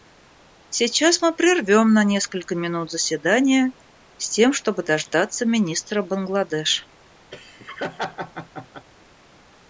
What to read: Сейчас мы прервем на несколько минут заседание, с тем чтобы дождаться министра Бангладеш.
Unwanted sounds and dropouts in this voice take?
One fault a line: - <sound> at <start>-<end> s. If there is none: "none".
- laugh at 7.3-8.9 s